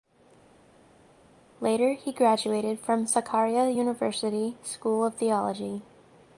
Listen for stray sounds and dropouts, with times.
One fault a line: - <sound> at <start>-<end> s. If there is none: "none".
none